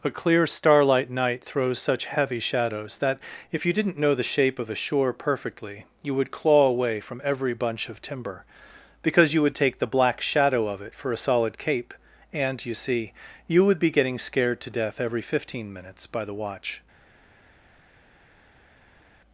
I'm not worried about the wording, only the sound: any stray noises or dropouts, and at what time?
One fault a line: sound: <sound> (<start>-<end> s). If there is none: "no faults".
no faults